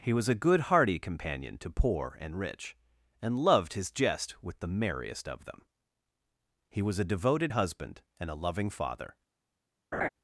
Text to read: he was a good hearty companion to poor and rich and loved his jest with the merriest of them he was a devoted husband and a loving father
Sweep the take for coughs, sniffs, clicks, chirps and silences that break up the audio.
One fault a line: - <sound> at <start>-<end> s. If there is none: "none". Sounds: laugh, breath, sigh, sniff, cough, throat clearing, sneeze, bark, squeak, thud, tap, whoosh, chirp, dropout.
- laugh at 9.9-10.1 s